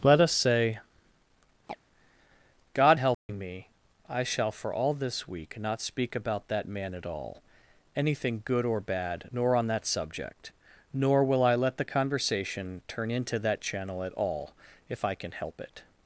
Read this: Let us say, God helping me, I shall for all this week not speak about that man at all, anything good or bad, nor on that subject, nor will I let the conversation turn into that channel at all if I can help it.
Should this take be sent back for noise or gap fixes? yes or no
yes